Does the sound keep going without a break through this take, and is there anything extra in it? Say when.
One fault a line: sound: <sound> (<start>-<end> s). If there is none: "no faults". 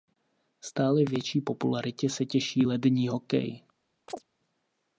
sound: chirp (4.1-4.2 s)